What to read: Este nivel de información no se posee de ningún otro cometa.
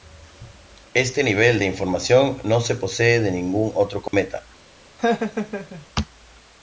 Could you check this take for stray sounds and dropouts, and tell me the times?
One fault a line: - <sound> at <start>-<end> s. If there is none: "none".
- dropout at 4.1-4.1 s
- laugh at 5.0-5.9 s